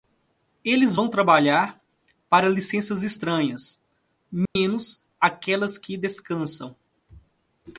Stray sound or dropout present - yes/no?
yes